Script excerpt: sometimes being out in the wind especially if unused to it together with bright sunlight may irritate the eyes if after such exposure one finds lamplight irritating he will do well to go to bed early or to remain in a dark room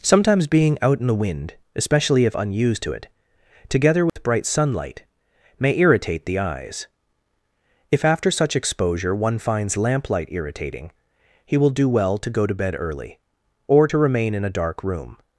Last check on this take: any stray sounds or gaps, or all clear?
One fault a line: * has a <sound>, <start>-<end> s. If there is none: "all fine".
* has a dropout, 4.1-4.2 s